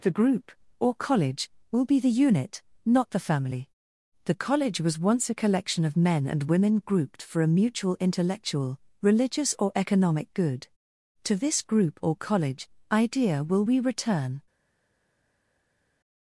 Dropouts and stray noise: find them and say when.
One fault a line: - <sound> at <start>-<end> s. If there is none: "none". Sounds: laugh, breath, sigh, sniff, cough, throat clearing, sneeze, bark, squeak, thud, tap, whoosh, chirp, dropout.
none